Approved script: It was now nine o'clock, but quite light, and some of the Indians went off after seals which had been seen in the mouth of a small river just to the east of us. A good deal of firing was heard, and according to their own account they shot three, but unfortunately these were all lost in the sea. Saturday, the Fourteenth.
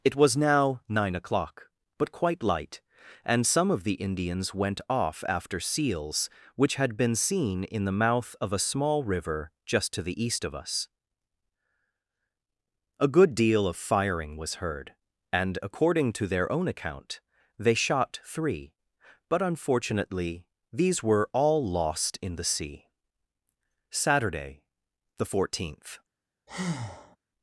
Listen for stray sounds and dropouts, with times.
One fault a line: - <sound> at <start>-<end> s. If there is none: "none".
- breath at 26.5-27.2 s